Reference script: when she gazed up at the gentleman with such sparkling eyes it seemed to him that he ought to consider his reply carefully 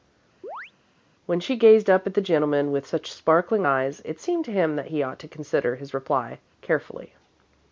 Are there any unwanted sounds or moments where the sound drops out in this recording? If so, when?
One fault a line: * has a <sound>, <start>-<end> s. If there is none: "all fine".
* has a chirp, 0.4-0.7 s